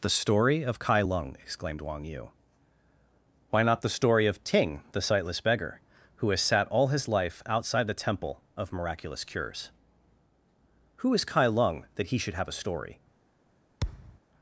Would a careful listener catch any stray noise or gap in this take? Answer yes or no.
yes